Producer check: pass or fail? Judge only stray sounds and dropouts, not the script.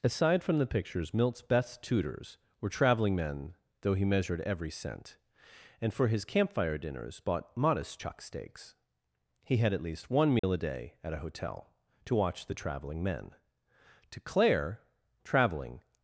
fail